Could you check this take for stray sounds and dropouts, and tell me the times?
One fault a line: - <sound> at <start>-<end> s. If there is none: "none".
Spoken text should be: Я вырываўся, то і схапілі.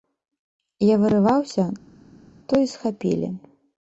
none